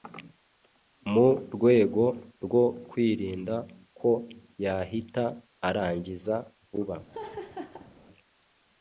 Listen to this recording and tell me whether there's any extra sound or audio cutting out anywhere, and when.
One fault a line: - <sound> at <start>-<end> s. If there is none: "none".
- laugh at 7.1-7.9 s